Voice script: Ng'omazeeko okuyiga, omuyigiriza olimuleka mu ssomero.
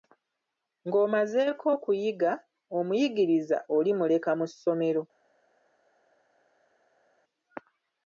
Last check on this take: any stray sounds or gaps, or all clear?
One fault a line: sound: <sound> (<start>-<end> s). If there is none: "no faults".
no faults